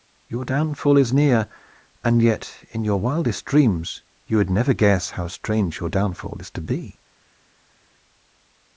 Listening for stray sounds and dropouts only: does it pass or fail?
pass